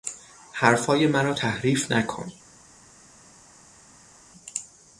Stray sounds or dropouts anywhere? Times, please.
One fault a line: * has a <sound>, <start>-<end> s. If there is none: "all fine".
all fine